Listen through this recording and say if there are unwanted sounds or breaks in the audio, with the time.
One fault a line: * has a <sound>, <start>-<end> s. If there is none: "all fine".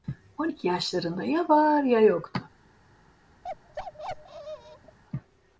* has a bark, 3.4-5.0 s